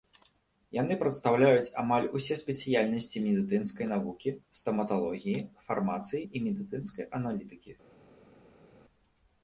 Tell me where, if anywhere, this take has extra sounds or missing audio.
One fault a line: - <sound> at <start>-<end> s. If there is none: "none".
none